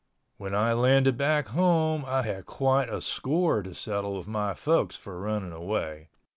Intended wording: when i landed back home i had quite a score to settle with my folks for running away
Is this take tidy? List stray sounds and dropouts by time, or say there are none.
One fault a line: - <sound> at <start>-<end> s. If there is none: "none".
none